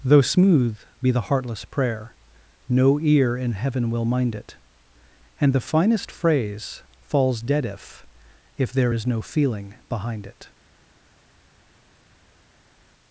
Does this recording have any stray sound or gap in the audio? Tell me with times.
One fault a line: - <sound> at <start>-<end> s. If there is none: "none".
none